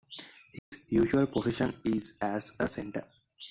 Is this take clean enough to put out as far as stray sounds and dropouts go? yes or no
no